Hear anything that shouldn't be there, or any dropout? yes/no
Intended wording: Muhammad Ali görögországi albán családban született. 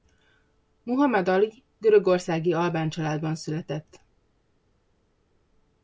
no